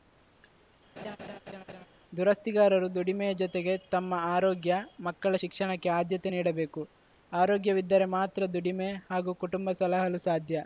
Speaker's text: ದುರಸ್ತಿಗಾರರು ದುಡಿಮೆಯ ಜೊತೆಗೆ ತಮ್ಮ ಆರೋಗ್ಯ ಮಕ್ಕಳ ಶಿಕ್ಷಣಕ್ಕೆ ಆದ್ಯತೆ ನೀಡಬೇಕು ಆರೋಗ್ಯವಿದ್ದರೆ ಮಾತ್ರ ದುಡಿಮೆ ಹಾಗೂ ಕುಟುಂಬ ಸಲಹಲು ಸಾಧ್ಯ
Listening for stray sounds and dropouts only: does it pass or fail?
fail